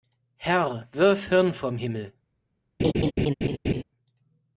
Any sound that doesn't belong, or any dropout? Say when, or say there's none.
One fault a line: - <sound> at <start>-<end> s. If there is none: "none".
- laugh at 2.8-3.8 s